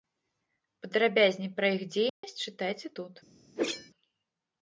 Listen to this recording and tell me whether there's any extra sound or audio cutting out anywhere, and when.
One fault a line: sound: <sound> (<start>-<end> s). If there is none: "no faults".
sound: dropout (2.1-2.2 s)
sound: whoosh (3.6-3.9 s)